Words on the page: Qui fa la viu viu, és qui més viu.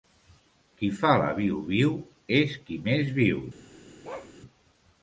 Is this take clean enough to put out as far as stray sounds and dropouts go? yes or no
no